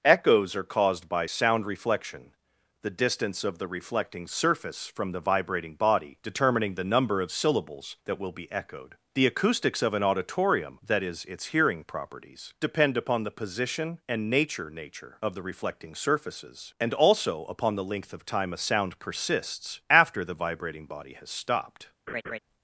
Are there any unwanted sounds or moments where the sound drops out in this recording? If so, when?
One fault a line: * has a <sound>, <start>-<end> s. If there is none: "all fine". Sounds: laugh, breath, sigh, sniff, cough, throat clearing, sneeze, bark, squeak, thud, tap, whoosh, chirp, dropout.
* has a laugh, 22.1-22.4 s